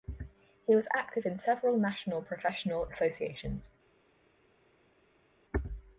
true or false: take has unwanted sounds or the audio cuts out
false